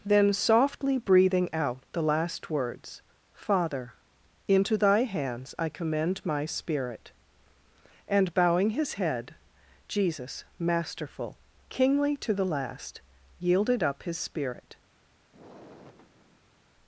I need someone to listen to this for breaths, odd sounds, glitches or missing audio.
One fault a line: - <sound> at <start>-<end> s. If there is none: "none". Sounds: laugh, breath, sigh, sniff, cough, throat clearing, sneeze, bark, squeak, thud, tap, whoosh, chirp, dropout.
- sigh at 15.3-16.7 s